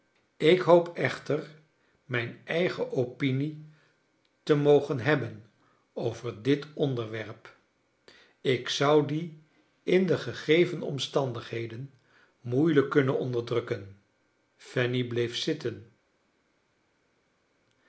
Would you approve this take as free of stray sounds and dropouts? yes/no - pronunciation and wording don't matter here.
yes